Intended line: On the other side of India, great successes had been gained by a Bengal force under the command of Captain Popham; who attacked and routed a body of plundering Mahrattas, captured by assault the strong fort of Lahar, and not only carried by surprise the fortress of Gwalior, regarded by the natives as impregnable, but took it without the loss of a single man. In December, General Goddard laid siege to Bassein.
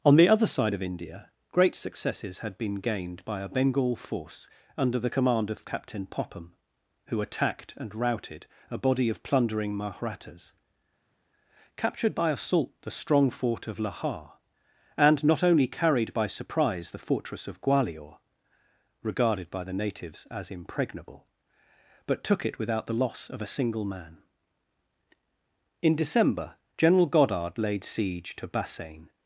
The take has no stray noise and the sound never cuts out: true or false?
true